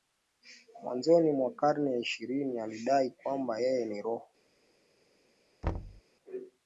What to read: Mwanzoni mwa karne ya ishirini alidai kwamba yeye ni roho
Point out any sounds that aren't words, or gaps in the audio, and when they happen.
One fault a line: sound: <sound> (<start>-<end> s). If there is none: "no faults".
sound: thud (5.6-6.0 s)